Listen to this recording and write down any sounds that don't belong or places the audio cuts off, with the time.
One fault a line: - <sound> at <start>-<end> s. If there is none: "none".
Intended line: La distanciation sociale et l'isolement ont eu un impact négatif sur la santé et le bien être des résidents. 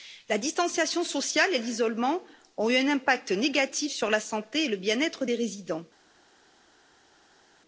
none